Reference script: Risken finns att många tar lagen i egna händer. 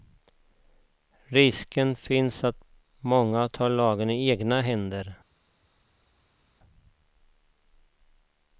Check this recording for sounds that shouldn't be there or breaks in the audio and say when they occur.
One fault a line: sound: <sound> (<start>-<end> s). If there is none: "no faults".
no faults